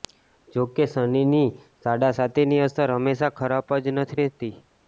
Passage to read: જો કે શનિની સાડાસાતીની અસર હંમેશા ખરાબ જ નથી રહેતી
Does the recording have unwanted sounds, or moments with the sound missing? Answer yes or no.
no